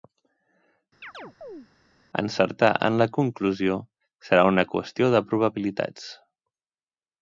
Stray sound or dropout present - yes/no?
yes